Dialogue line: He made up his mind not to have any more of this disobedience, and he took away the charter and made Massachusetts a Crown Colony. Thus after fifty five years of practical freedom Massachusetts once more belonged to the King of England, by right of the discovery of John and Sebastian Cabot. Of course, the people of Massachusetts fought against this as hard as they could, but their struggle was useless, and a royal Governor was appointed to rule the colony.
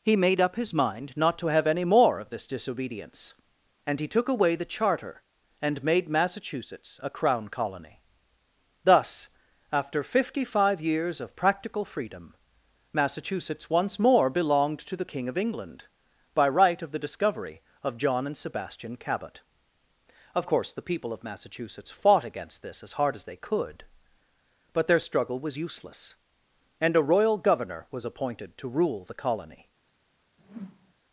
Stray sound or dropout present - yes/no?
yes